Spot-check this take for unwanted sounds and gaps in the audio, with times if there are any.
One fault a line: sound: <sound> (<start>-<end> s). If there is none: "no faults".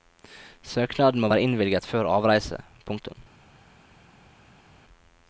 no faults